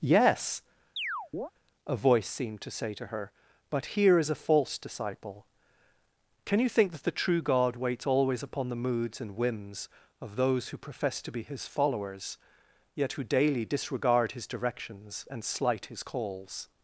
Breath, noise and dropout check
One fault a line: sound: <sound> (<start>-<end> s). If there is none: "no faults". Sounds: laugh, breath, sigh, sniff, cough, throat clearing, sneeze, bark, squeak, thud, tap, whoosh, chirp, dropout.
sound: chirp (1.0-1.5 s)